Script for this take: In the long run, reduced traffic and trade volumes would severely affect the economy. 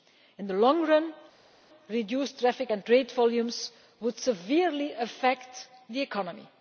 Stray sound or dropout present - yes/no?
no